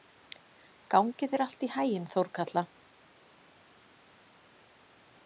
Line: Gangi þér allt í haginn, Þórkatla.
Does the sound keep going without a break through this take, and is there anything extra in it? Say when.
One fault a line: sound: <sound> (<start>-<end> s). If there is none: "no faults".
no faults